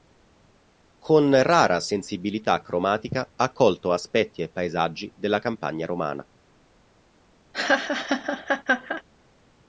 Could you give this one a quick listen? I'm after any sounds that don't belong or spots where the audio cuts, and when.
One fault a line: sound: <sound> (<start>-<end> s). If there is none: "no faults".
sound: laugh (7.5-9.0 s)